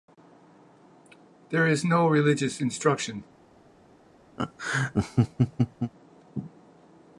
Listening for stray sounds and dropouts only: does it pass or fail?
fail